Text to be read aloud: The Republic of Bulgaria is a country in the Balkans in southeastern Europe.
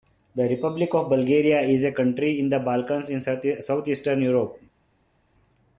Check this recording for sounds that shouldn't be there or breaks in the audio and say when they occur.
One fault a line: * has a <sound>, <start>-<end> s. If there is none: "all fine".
all fine